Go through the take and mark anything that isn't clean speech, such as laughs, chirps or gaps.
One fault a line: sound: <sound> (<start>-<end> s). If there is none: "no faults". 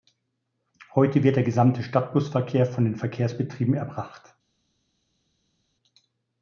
no faults